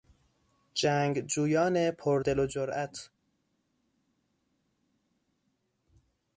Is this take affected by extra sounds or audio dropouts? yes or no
no